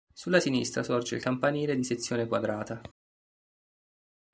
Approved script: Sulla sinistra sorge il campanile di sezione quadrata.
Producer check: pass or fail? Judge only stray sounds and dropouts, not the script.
pass